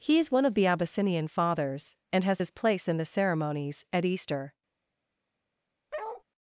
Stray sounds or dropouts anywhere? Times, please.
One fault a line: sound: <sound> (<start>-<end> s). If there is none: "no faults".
sound: bark (5.9-6.2 s)